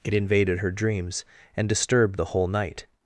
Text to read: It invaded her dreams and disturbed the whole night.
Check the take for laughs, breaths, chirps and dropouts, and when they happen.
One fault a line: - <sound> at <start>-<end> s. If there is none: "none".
none